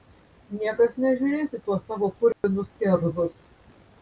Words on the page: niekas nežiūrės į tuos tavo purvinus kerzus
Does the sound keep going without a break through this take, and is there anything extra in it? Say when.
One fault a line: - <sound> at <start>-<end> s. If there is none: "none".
- dropout at 2.3-2.4 s